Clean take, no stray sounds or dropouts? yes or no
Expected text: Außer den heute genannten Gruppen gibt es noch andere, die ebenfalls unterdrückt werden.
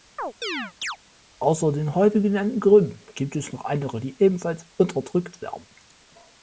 no